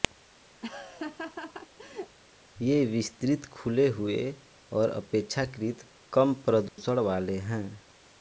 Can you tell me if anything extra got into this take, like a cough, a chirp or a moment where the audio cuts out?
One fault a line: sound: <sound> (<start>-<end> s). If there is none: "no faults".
sound: laugh (0.6-2.2 s)
sound: dropout (6.7-6.8 s)